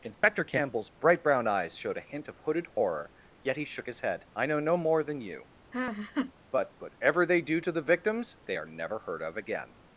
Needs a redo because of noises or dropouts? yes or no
yes